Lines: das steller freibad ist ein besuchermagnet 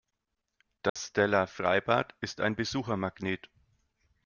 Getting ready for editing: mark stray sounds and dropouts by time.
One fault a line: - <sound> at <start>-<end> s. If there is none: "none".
- dropout at 0.9-1.0 s